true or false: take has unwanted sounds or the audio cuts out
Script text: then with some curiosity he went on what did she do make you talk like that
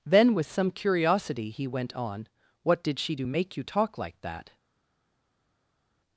false